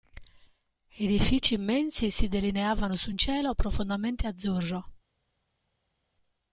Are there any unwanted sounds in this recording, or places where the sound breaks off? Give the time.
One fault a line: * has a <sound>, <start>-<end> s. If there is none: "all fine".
all fine